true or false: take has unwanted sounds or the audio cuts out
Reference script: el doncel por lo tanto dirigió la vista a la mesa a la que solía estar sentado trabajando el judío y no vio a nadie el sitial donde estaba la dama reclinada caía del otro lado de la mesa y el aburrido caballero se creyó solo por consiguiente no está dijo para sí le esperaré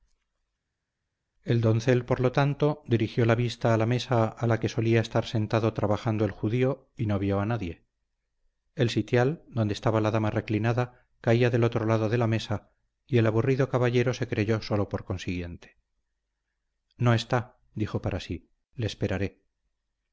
false